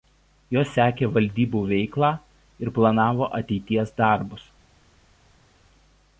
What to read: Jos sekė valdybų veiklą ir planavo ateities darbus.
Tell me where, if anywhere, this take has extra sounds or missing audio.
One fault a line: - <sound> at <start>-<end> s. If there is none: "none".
none